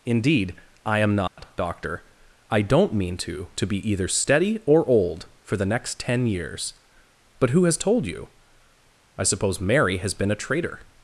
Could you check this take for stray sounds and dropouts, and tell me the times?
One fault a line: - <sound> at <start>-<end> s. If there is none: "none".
- dropout at 1.3-1.4 s